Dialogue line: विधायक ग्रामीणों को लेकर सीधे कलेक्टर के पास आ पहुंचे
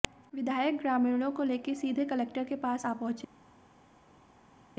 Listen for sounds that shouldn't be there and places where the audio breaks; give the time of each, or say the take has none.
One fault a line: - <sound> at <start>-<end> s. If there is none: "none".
none